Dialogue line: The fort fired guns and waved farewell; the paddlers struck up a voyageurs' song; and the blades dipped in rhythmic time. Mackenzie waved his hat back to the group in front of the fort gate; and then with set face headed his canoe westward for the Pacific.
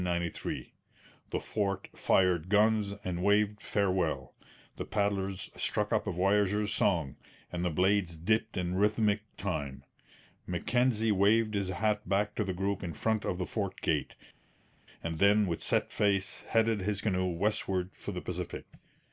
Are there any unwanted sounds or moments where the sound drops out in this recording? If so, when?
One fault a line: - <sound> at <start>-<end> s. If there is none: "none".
none